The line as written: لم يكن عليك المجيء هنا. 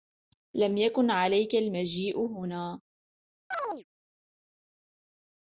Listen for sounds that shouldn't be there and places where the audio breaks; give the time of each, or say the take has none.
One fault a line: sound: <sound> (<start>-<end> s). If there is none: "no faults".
sound: chirp (3.5-3.8 s)